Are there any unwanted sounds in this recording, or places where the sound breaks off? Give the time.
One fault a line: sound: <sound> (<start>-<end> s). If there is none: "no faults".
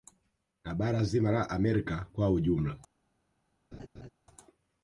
sound: laugh (3.7-4.1 s)